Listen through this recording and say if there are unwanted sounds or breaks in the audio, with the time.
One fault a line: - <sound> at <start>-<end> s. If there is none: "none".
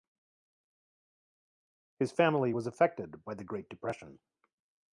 none